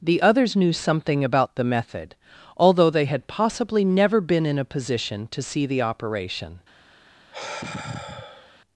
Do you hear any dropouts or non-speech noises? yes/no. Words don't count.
yes